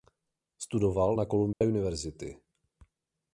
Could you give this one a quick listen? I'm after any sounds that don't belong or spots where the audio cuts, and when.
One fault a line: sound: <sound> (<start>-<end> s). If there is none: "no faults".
sound: dropout (1.5-1.6 s)